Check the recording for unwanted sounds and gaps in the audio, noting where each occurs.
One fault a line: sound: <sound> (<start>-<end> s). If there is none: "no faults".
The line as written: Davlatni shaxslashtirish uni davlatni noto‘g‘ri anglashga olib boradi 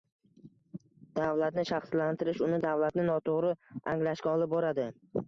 no faults